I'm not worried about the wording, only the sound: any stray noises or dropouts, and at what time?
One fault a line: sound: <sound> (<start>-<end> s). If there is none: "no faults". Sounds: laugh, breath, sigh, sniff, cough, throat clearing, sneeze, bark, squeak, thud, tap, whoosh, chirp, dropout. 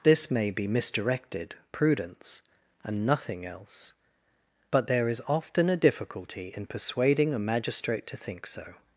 no faults